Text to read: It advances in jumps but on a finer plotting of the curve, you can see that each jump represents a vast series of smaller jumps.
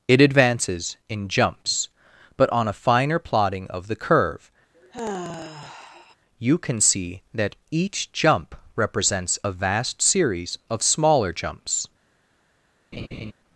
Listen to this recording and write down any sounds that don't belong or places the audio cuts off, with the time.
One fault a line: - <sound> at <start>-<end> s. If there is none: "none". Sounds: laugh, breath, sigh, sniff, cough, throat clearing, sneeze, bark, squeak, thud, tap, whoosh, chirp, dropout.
- sigh at 4.7-6.2 s
- laugh at 12.9-13.3 s